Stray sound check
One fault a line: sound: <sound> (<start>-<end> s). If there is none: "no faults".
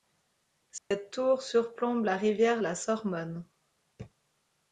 sound: dropout (0.8-0.9 s)